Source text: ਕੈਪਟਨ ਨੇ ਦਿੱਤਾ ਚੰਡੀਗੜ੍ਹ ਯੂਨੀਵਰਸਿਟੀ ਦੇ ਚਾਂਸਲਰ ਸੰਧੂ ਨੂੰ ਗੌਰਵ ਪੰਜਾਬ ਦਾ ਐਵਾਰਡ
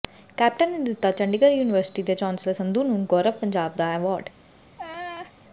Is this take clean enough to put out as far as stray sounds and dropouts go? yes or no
no